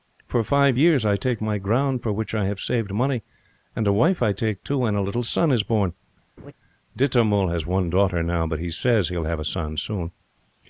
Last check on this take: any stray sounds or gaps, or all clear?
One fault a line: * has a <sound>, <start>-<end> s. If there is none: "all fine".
* has a laugh, 6.4-6.5 s